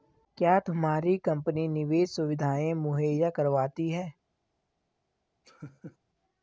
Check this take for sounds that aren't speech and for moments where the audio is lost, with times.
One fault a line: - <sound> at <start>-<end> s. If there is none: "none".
- laugh at 5.4-6.0 s